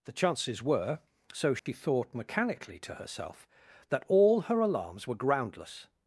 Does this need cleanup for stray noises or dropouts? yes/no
yes